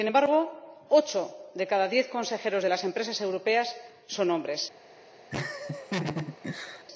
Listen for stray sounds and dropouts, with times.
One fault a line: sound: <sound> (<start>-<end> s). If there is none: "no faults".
sound: laugh (5.3-6.8 s)